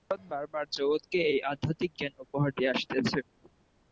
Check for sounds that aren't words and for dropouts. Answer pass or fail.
pass